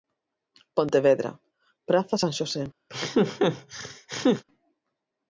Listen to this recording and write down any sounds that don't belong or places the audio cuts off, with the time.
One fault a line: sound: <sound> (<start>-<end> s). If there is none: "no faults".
sound: laugh (2.9-4.4 s)